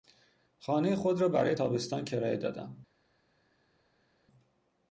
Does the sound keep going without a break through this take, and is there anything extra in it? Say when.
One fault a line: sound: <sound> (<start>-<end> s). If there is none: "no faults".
no faults